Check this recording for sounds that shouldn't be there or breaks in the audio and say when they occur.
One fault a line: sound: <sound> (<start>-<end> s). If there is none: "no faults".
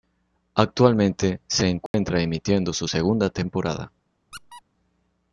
sound: dropout (1.9-1.9 s)
sound: squeak (4.3-4.6 s)